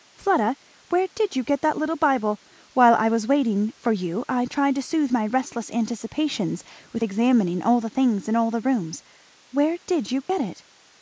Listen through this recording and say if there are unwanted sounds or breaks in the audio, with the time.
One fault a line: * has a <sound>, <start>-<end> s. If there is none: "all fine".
* has a dropout, 10.2-10.3 s